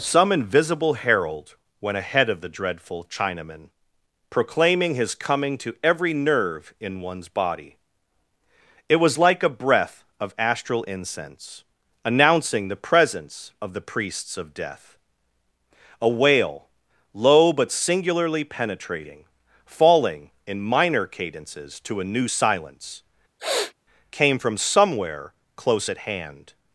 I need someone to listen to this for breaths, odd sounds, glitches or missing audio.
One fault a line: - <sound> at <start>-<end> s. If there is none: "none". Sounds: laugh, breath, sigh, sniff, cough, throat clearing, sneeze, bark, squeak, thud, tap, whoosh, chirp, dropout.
- sniff at 23.4-23.7 s